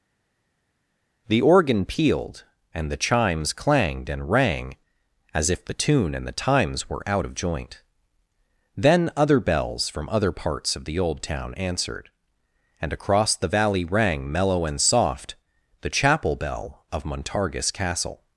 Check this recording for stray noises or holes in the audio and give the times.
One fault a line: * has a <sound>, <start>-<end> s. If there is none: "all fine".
all fine